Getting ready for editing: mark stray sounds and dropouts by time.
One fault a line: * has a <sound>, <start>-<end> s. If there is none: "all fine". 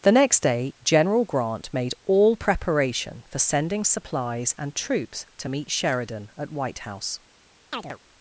* has a chirp, 7.7-8.0 s